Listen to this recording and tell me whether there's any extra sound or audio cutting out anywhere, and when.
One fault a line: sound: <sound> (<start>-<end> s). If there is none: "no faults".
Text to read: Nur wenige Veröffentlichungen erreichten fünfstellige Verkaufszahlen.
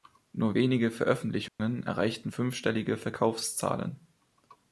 sound: dropout (1.5-1.6 s)